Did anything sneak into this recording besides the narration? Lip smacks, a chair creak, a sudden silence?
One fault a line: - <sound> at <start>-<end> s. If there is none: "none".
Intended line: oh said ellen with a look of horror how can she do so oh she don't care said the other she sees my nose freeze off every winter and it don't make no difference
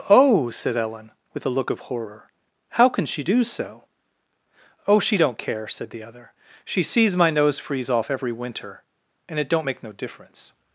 none